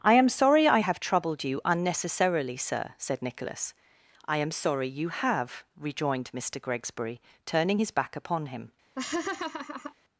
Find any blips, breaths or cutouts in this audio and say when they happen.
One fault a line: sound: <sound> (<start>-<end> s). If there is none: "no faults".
sound: laugh (9.0-9.9 s)